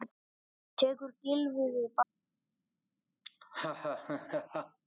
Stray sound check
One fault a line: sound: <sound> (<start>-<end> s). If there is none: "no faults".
sound: laugh (3.2-4.8 s)